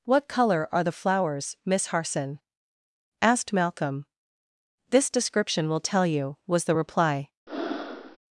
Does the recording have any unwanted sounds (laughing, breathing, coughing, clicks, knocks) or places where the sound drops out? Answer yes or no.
yes